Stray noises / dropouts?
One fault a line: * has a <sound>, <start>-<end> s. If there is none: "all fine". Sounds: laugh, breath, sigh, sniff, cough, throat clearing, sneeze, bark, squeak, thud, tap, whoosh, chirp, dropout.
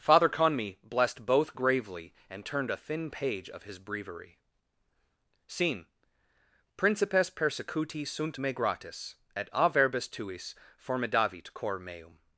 all fine